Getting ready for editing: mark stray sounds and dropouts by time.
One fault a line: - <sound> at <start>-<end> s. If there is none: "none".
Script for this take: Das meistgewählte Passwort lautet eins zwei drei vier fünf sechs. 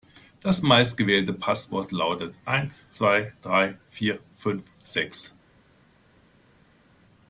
none